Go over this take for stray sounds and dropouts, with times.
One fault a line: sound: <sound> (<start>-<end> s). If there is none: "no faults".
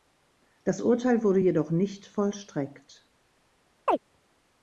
sound: chirp (3.9-4.0 s)